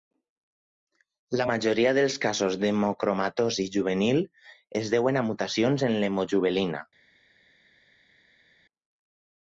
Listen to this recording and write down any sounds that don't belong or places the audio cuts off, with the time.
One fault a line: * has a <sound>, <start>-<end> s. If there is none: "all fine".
all fine